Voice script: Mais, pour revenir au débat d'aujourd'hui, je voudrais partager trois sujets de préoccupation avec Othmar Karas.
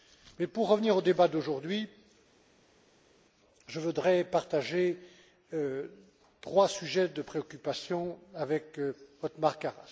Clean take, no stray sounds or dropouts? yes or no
yes